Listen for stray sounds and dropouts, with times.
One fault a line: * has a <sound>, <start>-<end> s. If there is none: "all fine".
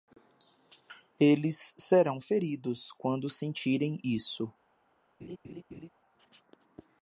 * has a laugh, 5.2-5.9 s